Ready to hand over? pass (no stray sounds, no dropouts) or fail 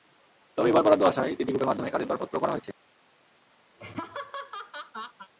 fail